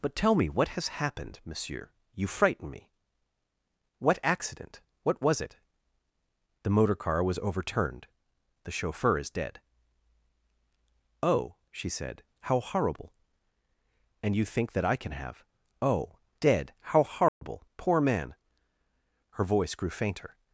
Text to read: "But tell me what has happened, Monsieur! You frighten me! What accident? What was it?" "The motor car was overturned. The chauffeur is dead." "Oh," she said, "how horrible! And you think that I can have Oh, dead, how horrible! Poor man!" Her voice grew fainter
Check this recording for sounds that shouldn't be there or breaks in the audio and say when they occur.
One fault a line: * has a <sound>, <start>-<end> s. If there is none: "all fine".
* has a dropout, 17.3-17.4 s